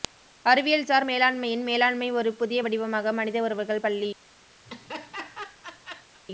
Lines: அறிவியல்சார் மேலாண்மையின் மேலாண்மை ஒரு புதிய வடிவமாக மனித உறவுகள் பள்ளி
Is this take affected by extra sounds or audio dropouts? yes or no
yes